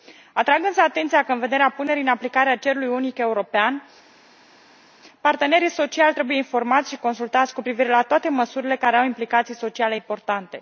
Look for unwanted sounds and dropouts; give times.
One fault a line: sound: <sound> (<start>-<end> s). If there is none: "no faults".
no faults